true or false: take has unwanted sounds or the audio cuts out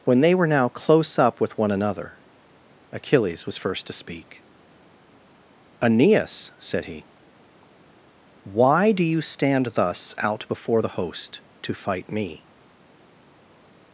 false